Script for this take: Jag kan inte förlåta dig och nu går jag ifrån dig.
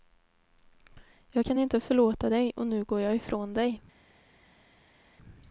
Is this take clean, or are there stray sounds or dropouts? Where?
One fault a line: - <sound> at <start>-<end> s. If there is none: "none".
none